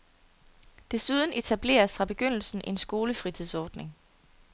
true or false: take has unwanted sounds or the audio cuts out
false